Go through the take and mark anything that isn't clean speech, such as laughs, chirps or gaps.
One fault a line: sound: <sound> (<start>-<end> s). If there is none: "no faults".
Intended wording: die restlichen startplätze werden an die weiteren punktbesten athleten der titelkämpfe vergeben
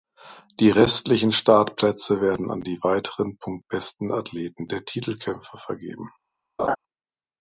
sound: laugh (6.6-6.8 s)